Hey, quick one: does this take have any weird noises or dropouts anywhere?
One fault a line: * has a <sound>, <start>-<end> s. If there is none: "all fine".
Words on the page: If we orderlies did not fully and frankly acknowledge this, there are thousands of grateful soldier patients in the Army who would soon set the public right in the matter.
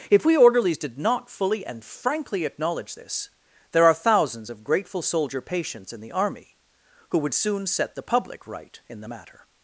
all fine